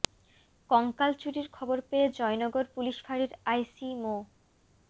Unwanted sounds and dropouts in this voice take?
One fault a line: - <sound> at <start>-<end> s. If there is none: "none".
none